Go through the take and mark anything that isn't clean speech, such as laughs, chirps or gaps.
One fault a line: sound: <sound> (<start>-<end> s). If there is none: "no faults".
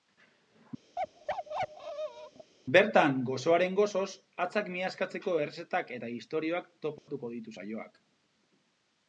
sound: bark (1.0-2.5 s)
sound: dropout (7.0-7.1 s)